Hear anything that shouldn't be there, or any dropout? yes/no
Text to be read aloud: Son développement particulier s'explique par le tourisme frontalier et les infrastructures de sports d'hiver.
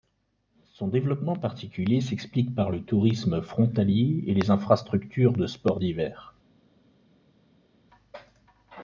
no